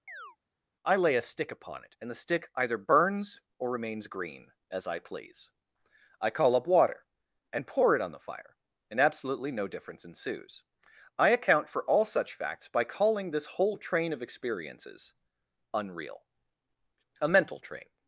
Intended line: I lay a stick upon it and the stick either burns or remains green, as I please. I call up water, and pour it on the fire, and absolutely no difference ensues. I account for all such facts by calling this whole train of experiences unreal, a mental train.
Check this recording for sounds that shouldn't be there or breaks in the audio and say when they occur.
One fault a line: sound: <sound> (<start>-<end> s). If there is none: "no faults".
sound: chirp (0.1-0.4 s)